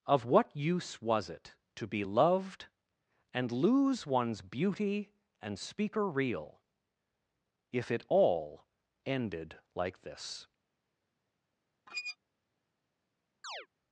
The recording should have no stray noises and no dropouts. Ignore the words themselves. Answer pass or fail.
fail